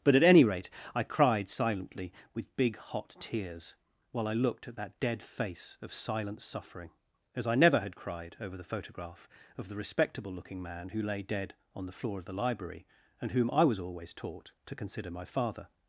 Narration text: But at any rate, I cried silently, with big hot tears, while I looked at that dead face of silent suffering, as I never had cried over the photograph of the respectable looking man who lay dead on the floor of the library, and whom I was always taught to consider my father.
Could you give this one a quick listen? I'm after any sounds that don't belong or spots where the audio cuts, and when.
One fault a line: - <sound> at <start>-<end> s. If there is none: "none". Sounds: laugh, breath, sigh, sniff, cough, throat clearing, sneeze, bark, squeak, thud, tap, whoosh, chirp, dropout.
none